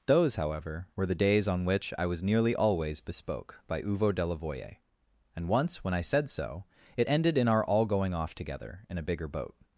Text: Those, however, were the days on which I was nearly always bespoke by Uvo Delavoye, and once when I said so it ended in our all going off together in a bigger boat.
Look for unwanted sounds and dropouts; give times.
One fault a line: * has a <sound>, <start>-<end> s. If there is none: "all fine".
all fine